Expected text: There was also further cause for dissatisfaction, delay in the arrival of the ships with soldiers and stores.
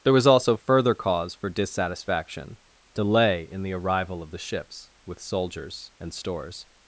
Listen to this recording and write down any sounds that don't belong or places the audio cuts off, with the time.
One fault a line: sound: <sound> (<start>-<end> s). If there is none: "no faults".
no faults